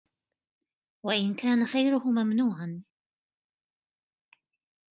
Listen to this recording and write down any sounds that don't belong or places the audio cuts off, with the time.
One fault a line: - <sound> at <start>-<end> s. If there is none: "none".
none